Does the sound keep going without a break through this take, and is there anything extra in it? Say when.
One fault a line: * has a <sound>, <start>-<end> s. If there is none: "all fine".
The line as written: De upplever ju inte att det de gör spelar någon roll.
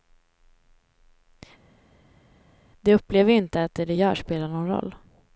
all fine